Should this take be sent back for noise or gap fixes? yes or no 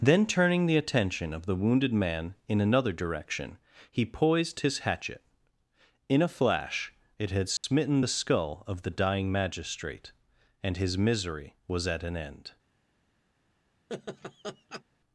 yes